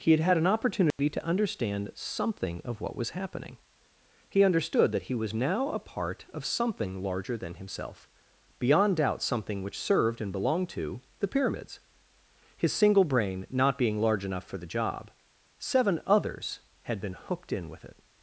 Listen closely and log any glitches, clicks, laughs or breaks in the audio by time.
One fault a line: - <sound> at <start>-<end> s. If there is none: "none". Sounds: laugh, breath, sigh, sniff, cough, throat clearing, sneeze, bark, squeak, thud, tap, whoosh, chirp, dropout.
- dropout at 0.9-1.0 s